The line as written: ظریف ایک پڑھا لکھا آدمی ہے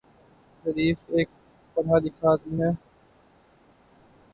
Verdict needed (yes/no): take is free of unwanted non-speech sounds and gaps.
yes